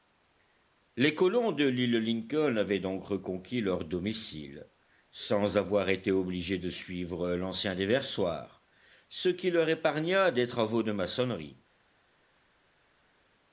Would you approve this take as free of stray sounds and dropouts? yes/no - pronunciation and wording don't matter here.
yes